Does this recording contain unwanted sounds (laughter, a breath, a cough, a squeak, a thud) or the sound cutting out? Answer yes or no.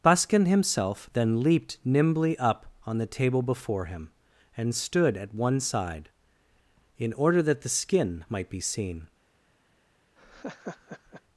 yes